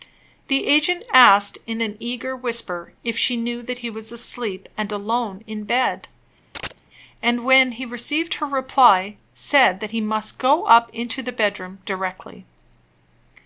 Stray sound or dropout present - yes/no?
yes